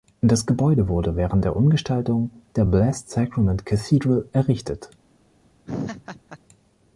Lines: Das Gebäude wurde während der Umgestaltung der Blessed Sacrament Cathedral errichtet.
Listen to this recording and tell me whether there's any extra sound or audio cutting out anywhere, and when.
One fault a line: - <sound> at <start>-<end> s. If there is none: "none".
- laugh at 5.7-6.4 s